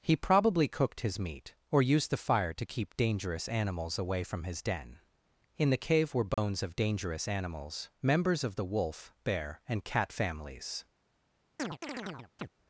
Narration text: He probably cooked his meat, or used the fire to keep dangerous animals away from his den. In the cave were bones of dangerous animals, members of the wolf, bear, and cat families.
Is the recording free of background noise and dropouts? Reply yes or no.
no